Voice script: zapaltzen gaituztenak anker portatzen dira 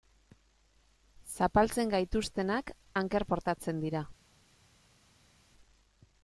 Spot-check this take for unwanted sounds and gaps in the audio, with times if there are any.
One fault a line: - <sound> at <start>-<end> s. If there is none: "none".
none